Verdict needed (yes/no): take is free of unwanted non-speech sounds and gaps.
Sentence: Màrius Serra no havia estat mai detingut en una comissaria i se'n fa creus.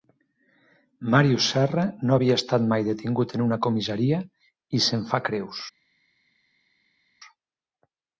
yes